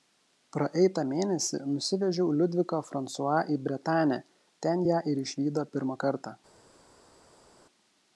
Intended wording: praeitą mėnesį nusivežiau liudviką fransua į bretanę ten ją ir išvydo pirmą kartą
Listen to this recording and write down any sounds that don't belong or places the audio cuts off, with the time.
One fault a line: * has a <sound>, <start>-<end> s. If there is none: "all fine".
all fine